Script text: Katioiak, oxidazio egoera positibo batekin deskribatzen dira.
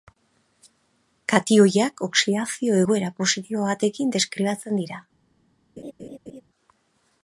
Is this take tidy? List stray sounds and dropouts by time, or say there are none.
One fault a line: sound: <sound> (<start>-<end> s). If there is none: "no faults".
sound: laugh (5.8-6.4 s)